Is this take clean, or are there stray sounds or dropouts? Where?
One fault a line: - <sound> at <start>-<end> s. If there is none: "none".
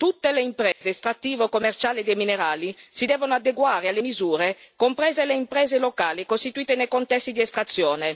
- dropout at 0.7-0.8 s